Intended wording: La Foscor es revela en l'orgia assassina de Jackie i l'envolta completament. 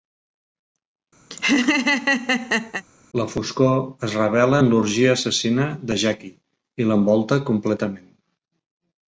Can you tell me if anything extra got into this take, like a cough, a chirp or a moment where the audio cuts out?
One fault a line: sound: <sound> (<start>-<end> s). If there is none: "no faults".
sound: laugh (1.3-2.8 s)